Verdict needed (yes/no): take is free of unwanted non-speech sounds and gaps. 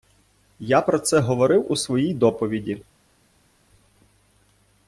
yes